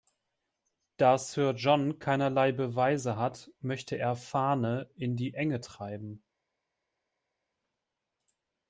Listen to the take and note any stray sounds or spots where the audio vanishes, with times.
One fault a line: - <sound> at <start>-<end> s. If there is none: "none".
none